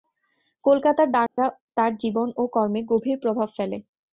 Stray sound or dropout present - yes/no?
yes